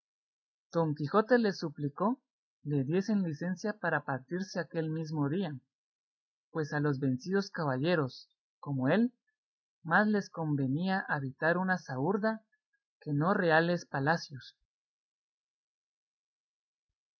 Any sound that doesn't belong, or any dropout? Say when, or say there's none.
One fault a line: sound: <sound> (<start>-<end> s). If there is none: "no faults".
no faults